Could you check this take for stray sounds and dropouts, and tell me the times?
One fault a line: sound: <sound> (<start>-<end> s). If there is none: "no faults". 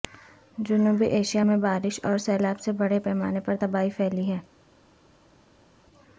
no faults